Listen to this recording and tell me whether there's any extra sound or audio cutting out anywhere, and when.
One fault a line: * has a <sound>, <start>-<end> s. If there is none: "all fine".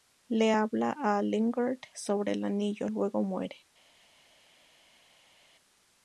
all fine